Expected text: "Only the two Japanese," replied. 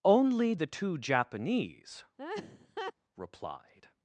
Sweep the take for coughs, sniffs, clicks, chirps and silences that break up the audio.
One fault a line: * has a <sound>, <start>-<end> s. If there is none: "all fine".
* has a laugh, 2.2-2.9 s